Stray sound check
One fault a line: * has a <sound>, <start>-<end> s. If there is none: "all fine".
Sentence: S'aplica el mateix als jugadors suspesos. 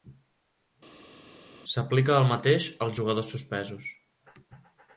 all fine